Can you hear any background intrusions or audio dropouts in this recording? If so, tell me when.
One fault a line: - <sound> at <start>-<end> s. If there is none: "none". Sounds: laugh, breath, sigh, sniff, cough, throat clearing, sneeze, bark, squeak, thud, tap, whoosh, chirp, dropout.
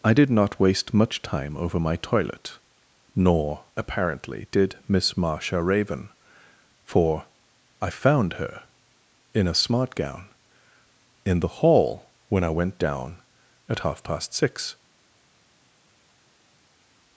none